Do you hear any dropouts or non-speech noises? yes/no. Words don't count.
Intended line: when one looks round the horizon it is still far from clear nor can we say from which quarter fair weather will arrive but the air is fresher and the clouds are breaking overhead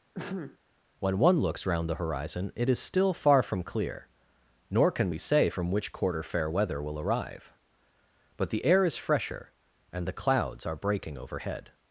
yes